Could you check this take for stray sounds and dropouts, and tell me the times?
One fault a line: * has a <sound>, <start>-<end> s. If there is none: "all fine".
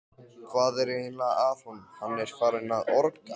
all fine